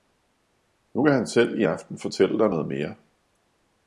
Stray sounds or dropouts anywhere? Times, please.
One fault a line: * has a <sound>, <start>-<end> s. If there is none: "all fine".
all fine